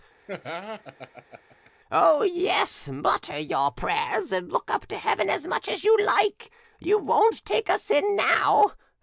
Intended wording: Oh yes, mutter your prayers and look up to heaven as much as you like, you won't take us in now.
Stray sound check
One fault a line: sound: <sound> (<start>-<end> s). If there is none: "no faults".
sound: laugh (0.3-1.7 s)